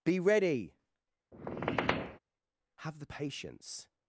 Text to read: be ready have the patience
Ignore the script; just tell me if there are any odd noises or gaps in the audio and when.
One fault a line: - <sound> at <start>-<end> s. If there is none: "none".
- squeak at 1.3-2.2 s